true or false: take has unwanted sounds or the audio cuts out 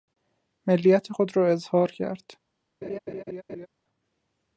true